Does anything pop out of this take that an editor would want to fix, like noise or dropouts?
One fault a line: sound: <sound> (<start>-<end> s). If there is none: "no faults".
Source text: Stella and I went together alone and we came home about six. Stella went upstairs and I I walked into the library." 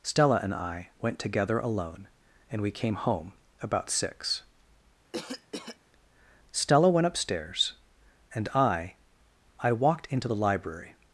sound: cough (5.1-5.8 s)